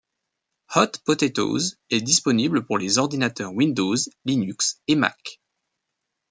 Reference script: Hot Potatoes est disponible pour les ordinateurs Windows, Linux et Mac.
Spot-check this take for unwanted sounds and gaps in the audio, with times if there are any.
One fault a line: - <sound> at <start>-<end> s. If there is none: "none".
none